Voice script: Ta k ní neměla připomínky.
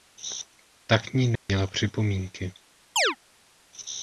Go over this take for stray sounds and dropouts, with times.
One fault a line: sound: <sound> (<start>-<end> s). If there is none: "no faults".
sound: dropout (1.4-1.5 s)
sound: chirp (3.0-3.2 s)